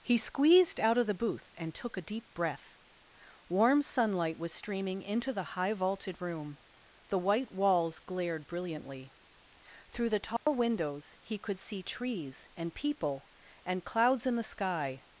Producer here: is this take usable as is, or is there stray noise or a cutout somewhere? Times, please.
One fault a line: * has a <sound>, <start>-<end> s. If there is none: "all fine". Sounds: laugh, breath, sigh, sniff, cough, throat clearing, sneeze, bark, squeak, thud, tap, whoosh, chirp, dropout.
* has a dropout, 10.4-10.5 s